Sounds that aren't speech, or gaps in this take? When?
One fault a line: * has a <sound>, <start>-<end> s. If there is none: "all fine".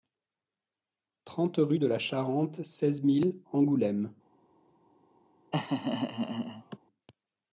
* has a laugh, 5.5-6.8 s